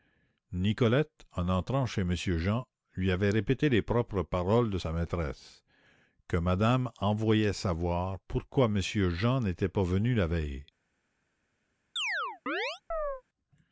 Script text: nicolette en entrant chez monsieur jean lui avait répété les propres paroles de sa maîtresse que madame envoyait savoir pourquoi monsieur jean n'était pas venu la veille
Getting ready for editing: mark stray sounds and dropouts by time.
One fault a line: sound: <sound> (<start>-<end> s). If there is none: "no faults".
sound: chirp (12.0-13.2 s)